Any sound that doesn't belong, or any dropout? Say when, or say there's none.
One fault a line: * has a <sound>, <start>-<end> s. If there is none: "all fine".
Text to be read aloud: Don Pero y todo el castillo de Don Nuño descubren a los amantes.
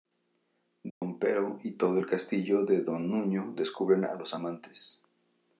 * has a dropout, 0.9-1.0 s